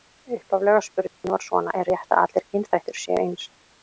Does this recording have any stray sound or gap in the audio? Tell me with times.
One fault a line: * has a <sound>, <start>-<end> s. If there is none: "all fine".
* has a dropout, 1.1-1.2 s